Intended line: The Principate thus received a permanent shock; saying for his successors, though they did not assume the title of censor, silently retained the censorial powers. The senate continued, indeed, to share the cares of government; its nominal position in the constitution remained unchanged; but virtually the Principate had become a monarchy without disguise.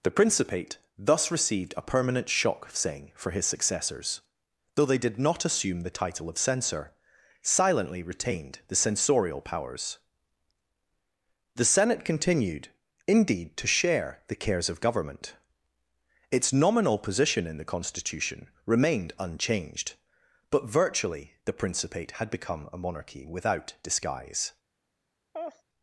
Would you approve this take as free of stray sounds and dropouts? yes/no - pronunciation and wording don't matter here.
no